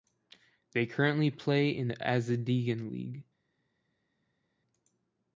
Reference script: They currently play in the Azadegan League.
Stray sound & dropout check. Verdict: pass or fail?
pass